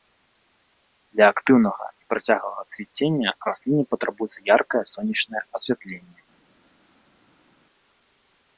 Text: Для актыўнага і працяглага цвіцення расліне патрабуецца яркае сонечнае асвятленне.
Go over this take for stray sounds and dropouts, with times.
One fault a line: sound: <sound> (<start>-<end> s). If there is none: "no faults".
no faults